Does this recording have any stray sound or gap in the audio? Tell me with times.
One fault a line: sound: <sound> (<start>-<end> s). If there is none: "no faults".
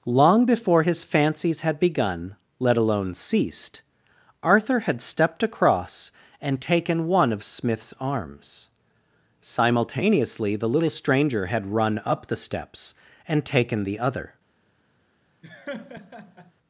sound: laugh (15.4-16.5 s)